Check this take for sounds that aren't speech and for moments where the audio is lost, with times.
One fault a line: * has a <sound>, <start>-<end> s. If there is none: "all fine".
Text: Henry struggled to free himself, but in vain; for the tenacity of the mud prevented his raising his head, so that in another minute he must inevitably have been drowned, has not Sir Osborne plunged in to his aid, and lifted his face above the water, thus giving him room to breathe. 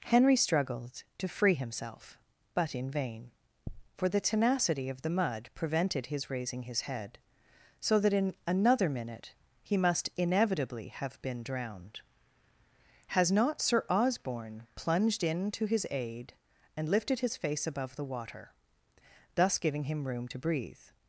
all fine